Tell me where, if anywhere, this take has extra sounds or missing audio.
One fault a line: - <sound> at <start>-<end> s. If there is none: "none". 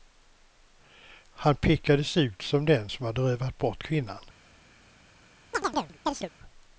- chirp at 5.5-6.3 s